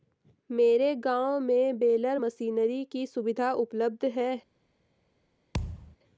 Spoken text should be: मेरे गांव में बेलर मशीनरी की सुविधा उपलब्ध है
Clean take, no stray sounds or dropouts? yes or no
no